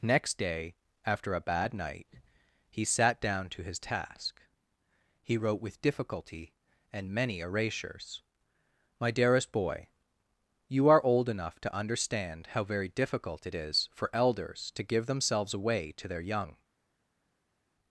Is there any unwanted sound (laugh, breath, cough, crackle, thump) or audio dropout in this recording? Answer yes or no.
no